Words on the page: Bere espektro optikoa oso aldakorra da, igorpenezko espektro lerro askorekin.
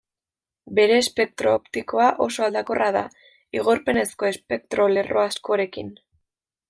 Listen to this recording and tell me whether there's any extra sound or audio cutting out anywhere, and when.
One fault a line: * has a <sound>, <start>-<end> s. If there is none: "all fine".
all fine